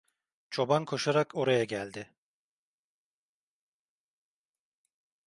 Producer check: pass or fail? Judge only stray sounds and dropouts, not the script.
pass